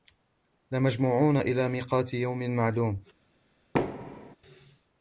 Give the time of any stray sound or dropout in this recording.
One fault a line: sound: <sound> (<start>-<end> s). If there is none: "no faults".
sound: thud (3.7-4.4 s)